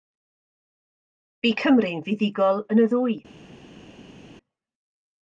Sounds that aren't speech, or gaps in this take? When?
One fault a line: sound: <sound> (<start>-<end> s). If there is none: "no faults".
no faults